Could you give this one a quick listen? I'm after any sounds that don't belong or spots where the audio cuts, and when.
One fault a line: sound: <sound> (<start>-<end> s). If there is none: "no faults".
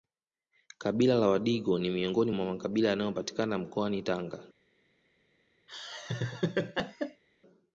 sound: laugh (5.7-7.2 s)